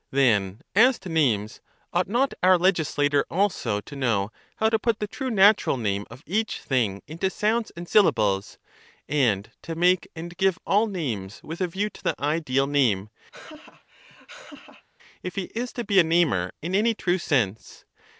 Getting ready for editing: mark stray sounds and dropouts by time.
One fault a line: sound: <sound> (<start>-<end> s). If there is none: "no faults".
sound: laugh (13.3-14.9 s)